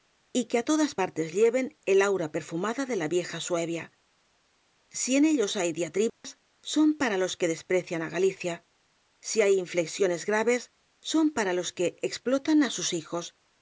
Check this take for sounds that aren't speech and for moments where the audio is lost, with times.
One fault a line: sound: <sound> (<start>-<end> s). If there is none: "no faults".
sound: dropout (6.1-6.2 s)